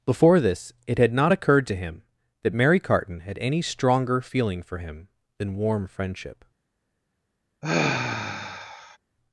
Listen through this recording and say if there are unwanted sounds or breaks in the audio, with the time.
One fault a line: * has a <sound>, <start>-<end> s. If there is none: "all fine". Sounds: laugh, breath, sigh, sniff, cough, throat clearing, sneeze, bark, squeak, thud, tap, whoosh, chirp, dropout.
* has a sigh, 7.6-9.0 s